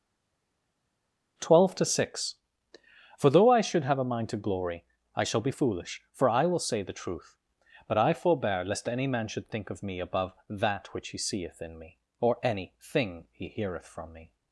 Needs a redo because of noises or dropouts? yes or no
no